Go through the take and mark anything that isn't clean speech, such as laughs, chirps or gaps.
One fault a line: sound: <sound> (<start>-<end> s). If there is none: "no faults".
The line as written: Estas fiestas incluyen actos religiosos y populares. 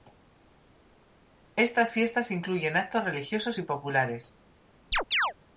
sound: chirp (4.9-5.3 s)